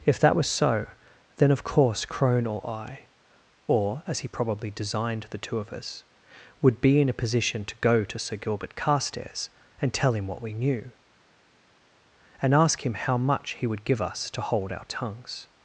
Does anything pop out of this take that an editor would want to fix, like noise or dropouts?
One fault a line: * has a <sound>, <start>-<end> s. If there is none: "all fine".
all fine